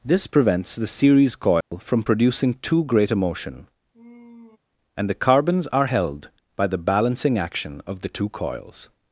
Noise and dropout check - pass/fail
fail